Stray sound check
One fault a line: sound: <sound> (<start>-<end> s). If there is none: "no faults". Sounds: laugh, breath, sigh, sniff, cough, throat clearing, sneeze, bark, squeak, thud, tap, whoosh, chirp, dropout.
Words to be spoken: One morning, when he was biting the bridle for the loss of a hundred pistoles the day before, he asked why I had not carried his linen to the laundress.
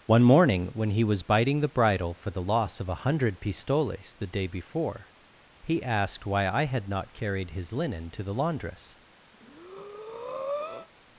sound: breath (9.3-10.9 s)